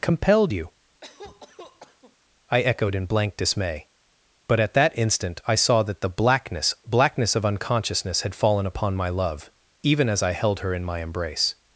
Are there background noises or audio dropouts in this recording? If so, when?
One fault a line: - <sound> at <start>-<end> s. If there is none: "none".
- cough at 1.0-2.2 s